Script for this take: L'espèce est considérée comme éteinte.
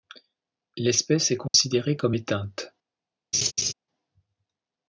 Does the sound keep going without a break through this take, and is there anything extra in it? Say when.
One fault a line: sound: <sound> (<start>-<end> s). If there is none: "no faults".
sound: dropout (1.5-1.5 s)
sound: laugh (3.3-3.7 s)